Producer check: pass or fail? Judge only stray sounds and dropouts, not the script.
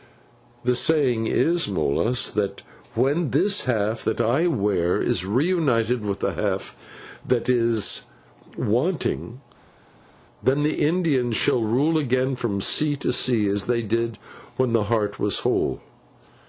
pass